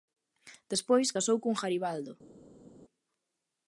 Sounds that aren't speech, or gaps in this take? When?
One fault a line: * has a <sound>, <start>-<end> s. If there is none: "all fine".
all fine